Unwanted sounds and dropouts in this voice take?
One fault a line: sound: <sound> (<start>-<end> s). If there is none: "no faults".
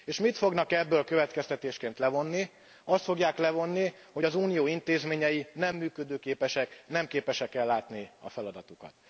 no faults